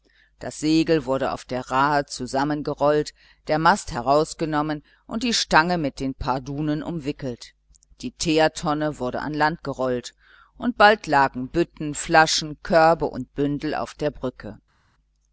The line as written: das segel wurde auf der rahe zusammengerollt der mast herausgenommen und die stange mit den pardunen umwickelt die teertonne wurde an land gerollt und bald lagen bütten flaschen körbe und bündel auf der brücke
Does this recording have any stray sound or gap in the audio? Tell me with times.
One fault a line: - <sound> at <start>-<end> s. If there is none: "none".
none